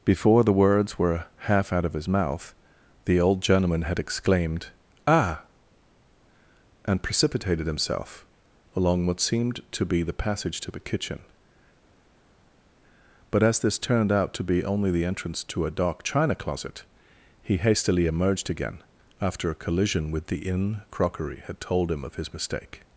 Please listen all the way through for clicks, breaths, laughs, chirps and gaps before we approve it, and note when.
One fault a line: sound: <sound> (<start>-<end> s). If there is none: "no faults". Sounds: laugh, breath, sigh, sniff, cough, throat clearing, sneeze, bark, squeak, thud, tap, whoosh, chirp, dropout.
no faults